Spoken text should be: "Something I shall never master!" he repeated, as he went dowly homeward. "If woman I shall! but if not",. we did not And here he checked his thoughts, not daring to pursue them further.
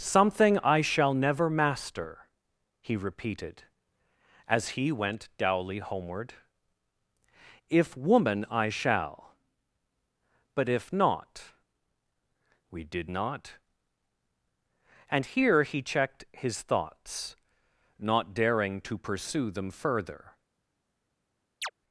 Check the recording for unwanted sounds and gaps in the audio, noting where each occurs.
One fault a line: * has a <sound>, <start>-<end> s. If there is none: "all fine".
* has a chirp, 21.6-21.7 s